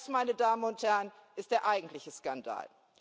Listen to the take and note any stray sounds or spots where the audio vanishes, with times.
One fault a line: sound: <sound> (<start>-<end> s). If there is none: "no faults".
no faults